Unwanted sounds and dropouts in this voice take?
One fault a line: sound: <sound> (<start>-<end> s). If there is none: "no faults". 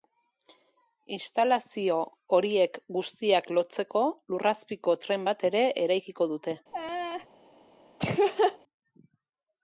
sound: laugh (6.7-7.3 s)
sound: laugh (8.0-8.6 s)